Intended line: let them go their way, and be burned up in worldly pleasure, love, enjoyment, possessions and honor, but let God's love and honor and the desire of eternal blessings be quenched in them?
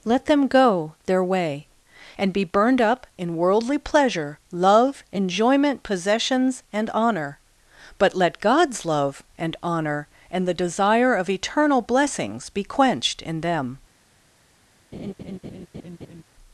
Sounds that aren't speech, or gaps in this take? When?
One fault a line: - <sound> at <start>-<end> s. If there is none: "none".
- laugh at 14.9-16.2 s